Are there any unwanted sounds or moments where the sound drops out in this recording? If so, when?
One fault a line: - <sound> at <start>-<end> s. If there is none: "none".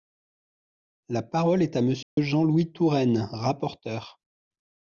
- dropout at 2.0-2.2 s